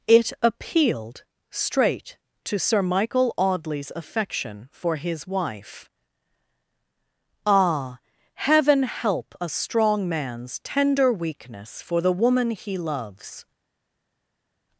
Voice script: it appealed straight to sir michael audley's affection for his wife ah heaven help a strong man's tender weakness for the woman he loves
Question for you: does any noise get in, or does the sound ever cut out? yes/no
no